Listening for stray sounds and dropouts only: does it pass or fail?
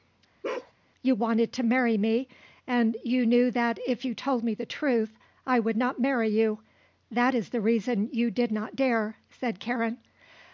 fail